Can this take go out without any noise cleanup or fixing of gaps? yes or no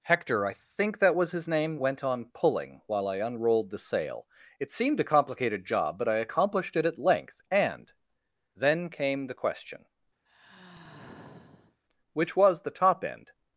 no